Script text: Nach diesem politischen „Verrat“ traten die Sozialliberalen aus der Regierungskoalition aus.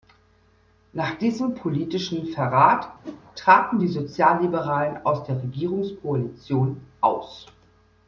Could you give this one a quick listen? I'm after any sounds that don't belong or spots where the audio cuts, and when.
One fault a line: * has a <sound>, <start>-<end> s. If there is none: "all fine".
* has a whoosh, 3.0-3.2 s